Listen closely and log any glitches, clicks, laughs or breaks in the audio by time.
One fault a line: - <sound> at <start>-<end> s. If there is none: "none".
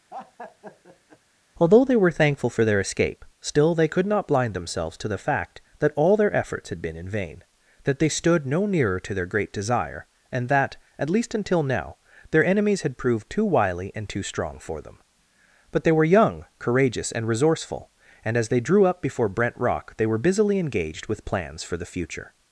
- laugh at 0.1-1.2 s